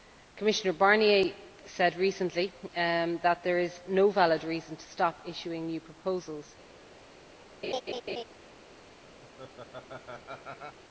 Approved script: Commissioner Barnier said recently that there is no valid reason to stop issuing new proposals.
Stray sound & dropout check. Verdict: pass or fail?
fail